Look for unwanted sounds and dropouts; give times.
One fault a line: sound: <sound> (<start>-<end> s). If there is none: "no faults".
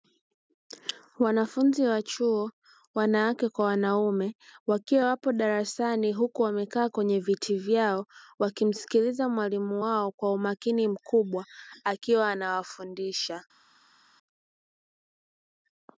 no faults